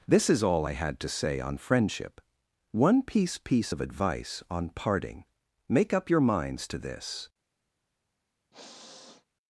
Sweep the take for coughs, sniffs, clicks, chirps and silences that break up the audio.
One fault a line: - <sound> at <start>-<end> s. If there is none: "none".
- sniff at 8.5-9.3 s